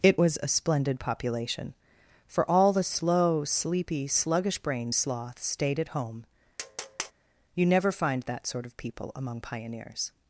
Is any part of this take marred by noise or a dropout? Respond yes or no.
yes